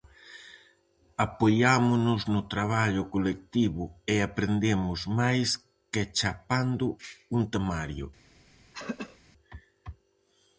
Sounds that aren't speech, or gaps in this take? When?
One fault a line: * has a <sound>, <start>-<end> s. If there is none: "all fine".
* has a throat clearing, 8.7-9.2 s